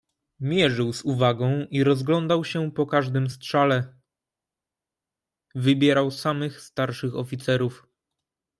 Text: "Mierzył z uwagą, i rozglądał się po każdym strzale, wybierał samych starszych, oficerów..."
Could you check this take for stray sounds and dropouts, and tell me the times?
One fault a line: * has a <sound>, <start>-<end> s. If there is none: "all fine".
all fine